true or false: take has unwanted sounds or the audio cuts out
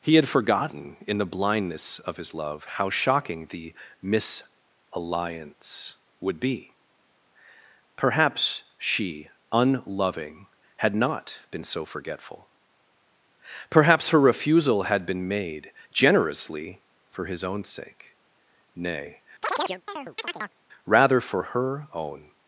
true